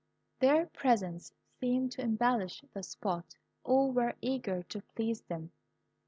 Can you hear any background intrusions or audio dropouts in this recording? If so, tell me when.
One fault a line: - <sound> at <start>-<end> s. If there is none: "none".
none